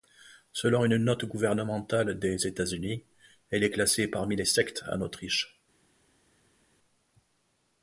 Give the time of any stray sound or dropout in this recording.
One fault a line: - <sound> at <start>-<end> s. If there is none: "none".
none